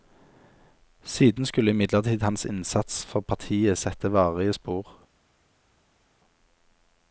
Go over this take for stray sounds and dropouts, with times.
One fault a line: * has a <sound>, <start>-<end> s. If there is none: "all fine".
all fine